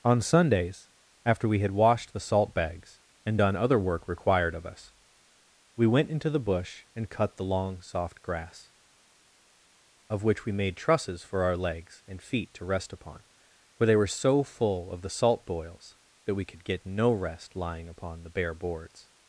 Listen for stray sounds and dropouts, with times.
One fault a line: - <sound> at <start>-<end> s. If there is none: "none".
none